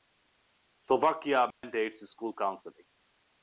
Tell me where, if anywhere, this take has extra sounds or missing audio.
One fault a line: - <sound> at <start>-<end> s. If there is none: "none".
- dropout at 1.5-1.6 s